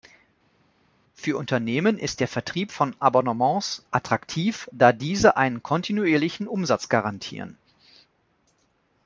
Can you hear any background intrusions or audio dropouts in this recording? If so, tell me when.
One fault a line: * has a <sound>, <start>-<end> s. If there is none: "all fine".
all fine